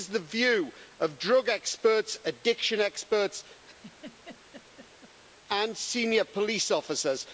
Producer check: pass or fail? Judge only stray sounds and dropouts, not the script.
fail